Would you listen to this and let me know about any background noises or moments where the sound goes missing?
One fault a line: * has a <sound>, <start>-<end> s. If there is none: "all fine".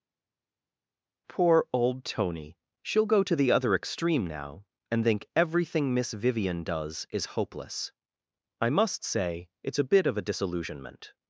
all fine